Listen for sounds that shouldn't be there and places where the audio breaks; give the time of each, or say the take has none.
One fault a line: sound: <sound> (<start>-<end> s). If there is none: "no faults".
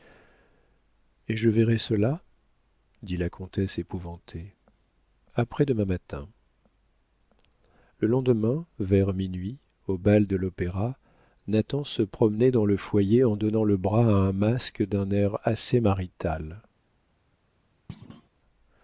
sound: thud (17.9-18.3 s)